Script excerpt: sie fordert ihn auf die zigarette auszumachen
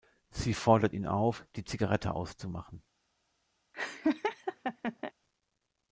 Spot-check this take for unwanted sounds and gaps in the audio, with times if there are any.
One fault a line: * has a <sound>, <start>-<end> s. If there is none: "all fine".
* has a laugh, 3.7-5.1 s